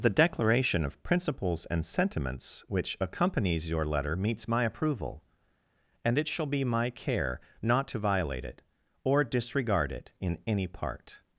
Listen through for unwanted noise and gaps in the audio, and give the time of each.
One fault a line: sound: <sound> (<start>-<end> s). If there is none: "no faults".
no faults